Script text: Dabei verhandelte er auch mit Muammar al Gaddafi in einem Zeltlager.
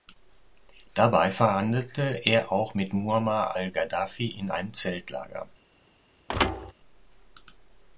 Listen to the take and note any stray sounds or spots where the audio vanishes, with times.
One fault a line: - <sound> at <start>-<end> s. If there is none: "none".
- thud at 6.3-6.7 s